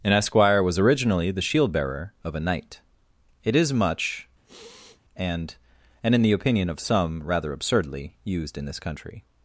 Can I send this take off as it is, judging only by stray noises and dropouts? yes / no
no